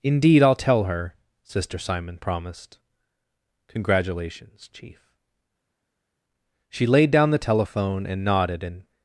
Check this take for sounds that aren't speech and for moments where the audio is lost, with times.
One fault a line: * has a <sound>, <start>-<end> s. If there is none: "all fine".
all fine